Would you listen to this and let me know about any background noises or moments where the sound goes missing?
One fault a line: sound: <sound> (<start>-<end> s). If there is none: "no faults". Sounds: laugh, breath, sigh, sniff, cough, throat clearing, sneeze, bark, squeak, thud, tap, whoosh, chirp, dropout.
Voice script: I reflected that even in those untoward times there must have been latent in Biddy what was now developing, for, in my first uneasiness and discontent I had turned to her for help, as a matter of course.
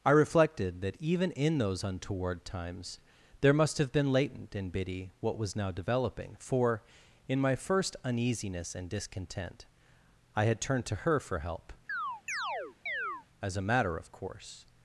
sound: chirp (11.9-13.3 s)